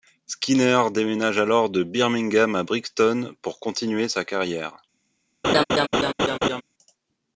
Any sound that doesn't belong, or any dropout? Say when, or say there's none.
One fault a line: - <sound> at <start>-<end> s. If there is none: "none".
- laugh at 5.4-6.6 s